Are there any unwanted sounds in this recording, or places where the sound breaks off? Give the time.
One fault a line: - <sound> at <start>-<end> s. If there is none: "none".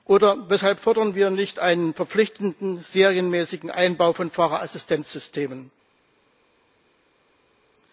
none